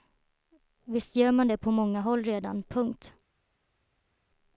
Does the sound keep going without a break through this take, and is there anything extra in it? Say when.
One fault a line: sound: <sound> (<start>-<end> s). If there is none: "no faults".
no faults